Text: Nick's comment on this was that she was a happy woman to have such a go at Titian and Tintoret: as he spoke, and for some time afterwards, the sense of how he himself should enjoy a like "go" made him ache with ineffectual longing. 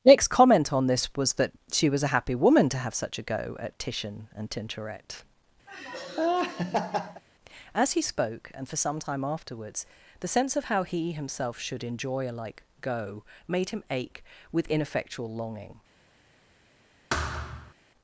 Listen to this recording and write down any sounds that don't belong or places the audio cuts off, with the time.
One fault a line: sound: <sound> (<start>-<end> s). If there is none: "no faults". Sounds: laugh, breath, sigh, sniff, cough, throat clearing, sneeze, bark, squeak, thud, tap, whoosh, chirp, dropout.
sound: laugh (5.7-7.2 s)
sound: thud (17.1-17.7 s)